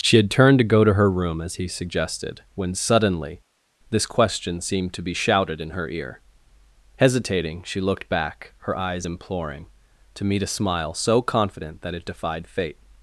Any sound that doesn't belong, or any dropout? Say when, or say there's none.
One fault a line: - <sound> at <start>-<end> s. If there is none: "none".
none